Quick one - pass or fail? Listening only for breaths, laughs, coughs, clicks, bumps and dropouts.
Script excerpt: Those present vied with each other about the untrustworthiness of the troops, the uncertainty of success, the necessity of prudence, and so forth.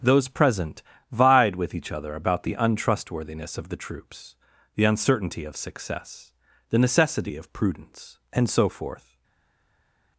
pass